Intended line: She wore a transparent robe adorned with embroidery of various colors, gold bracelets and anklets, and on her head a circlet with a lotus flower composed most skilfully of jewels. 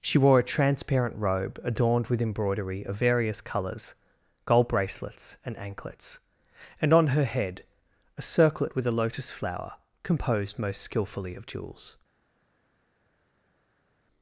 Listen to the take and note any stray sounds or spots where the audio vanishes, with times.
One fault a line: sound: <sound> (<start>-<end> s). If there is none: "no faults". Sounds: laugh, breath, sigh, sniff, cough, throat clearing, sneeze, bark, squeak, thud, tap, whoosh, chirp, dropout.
no faults